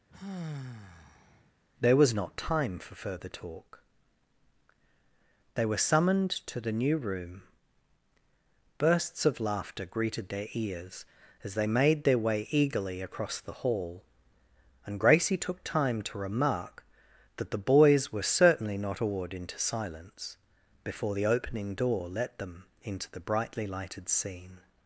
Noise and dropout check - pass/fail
fail